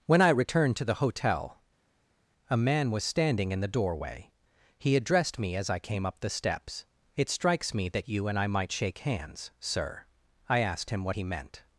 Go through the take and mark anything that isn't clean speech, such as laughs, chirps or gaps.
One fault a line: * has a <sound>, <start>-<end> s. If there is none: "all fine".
all fine